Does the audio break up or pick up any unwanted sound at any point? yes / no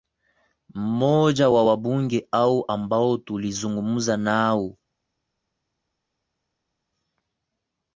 no